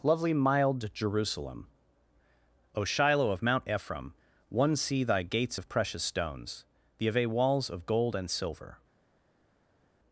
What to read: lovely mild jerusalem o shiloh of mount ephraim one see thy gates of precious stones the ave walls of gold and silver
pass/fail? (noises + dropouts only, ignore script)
pass